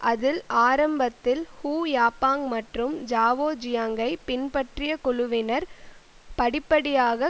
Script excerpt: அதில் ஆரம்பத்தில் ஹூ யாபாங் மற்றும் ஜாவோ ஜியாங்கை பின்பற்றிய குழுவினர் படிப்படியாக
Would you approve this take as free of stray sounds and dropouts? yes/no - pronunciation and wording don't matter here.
yes